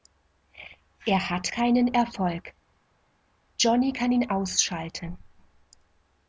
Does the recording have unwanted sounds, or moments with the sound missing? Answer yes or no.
no